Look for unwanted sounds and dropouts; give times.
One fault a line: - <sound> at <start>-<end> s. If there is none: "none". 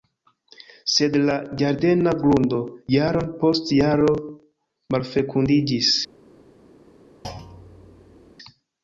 - thud at 7.2-8.3 s